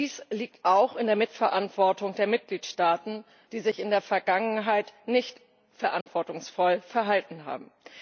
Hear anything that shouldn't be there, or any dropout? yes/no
yes